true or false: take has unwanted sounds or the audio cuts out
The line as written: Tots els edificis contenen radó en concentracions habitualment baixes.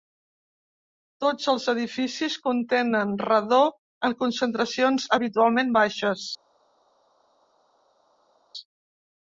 false